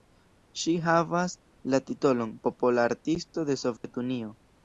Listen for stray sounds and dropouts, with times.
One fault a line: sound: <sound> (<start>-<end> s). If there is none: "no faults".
sound: dropout (3.8-3.8 s)